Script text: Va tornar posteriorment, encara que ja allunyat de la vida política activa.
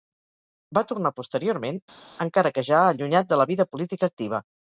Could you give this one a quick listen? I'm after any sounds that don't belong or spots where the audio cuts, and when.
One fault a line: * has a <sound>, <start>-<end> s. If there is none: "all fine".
all fine